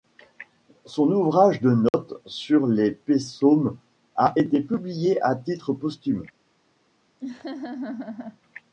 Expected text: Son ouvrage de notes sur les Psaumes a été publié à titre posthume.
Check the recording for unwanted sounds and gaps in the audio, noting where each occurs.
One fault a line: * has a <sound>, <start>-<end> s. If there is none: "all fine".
* has a dropout, 1.9-1.9 s
* has a laugh, 7.2-8.4 s